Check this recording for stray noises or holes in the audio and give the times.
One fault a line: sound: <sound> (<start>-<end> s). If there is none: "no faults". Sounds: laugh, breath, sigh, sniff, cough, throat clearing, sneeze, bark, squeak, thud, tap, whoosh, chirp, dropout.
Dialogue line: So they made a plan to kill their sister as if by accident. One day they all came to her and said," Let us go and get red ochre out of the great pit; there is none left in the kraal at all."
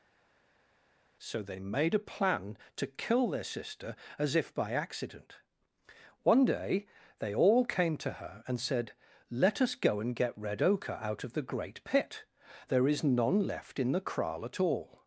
no faults